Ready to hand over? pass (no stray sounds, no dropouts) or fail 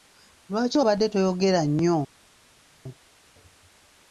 pass